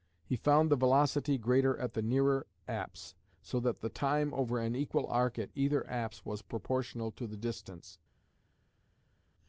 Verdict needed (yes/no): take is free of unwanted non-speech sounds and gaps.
yes